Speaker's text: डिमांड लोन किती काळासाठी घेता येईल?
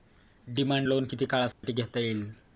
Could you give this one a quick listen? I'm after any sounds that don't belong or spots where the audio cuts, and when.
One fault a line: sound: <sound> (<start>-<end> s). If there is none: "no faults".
sound: dropout (1.5-1.6 s)